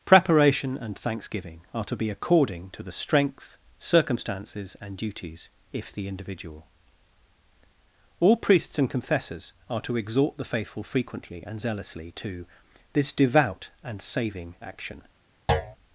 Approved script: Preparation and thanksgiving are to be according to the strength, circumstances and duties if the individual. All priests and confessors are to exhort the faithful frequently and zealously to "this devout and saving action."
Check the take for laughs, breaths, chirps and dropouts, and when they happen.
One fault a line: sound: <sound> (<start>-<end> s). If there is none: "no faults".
sound: thud (15.5-15.8 s)